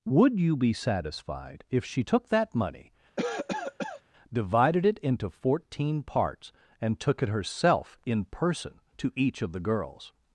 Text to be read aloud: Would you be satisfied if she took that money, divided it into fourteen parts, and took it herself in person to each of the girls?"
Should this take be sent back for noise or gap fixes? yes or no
yes